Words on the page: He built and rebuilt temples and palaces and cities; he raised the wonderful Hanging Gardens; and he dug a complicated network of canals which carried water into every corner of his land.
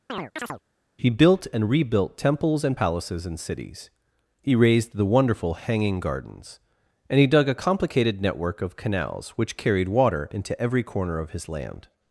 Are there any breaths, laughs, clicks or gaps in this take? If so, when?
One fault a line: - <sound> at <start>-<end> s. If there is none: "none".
- chirp at 0.1-0.6 s